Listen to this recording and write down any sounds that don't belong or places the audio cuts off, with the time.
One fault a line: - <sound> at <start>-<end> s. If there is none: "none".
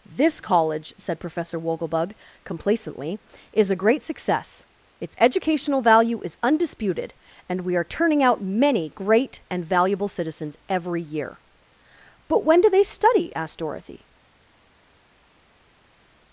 none